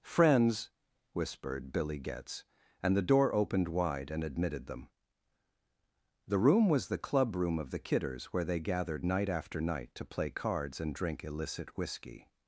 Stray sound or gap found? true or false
false